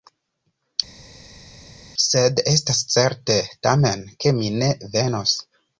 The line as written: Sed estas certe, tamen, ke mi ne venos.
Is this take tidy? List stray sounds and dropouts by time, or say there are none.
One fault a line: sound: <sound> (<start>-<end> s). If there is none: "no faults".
no faults